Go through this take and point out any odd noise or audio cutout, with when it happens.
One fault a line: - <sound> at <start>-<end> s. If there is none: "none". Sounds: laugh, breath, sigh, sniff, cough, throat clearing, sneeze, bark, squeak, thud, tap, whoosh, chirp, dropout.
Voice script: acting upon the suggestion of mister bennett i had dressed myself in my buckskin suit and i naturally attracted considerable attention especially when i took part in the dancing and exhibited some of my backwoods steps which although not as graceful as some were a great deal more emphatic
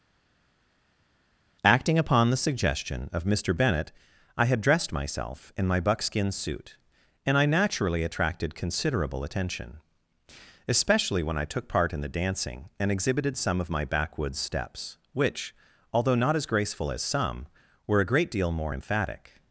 none